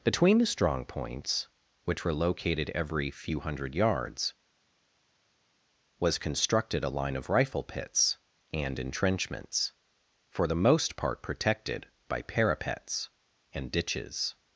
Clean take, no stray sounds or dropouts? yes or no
yes